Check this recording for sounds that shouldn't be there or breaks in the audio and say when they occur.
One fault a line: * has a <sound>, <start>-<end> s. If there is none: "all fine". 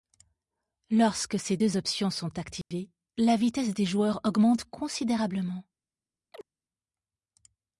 * has a dropout, 2.6-2.7 s
* has a chirp, 6.3-6.5 s